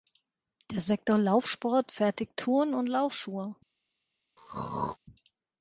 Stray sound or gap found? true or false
true